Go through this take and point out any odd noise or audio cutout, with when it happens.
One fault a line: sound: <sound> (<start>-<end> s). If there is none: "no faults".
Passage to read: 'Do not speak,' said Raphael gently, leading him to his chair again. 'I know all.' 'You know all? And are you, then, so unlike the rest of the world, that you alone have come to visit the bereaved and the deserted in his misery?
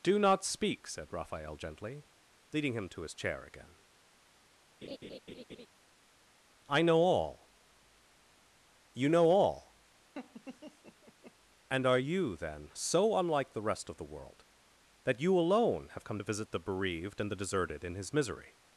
sound: laugh (4.8-5.7 s)
sound: laugh (10.1-11.3 s)